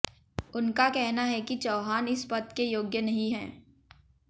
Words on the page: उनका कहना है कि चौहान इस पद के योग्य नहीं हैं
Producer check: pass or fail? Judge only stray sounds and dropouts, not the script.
pass